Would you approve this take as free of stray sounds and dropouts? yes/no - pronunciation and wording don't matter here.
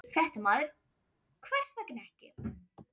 yes